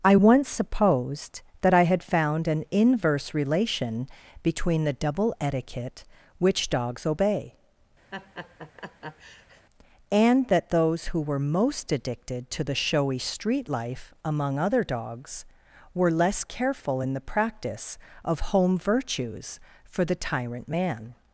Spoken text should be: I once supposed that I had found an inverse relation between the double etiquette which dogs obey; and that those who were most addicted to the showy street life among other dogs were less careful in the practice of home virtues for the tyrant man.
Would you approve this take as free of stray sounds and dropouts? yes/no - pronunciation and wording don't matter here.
no